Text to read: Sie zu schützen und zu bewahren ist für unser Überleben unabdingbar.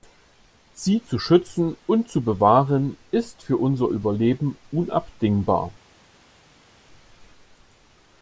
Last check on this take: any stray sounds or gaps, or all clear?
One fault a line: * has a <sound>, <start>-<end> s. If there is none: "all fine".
all fine